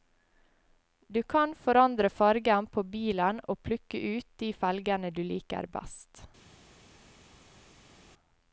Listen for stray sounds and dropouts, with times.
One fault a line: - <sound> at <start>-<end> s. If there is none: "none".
none